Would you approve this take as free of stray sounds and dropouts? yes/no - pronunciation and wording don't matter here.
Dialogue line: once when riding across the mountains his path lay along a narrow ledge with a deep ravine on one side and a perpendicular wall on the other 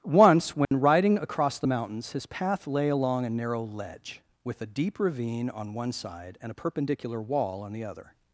no